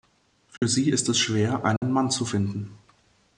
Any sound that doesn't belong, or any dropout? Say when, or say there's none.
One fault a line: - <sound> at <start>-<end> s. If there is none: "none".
- dropout at 0.6-0.6 s
- dropout at 1.8-1.8 s